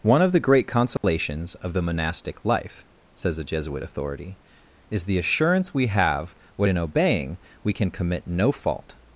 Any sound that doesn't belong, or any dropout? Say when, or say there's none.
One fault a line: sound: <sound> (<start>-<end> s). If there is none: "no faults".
sound: dropout (1.0-1.0 s)